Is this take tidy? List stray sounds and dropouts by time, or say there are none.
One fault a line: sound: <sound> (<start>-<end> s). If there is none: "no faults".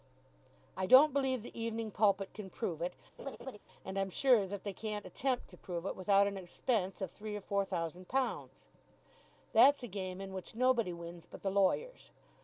sound: laugh (3.2-3.6 s)